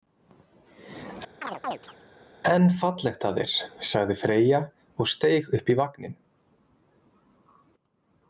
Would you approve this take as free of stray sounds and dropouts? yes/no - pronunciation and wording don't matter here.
no